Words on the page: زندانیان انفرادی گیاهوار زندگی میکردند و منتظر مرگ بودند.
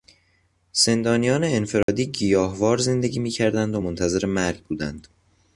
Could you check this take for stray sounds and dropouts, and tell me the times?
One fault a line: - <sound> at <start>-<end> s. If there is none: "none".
- dropout at 1.8-1.9 s